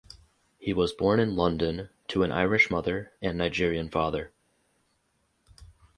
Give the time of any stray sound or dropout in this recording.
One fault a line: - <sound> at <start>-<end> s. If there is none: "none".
none